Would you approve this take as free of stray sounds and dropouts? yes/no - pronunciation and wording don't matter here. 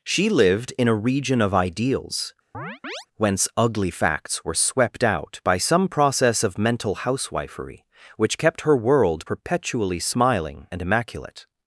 no